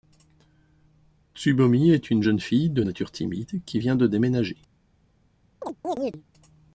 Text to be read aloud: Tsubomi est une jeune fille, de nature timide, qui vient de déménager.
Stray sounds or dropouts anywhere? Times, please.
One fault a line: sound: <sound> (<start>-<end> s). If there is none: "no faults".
sound: chirp (5.6-6.2 s)